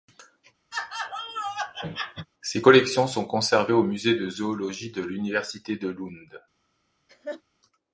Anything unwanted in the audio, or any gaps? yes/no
yes